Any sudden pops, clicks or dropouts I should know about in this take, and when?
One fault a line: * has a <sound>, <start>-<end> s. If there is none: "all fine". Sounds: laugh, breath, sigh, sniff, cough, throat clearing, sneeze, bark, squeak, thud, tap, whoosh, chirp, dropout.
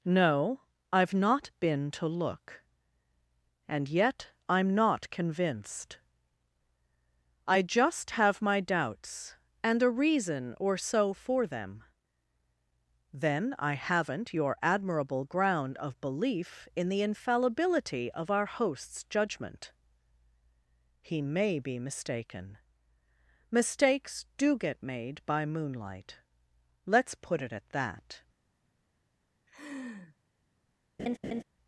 * has a laugh, 29.5-30.2 s
* has a laugh, 31.0-31.4 s